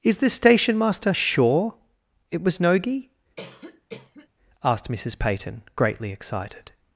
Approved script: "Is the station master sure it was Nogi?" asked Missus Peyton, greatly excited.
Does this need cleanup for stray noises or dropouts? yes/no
yes